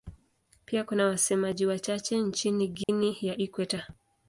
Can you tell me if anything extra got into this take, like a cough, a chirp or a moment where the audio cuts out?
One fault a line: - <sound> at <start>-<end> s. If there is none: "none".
- dropout at 2.8-2.9 s